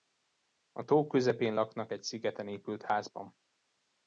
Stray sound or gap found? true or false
false